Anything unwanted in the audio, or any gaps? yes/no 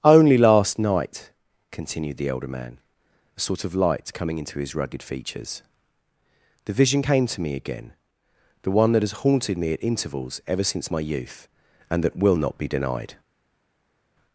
no